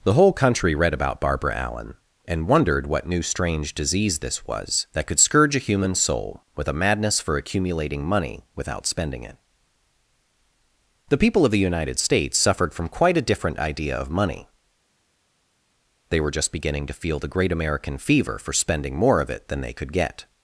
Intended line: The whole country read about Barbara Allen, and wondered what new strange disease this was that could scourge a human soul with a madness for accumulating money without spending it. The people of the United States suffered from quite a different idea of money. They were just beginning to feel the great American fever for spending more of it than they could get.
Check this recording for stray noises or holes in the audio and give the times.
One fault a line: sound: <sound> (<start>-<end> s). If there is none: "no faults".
no faults